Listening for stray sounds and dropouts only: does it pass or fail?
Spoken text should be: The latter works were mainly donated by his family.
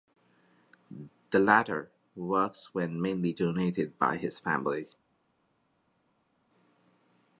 pass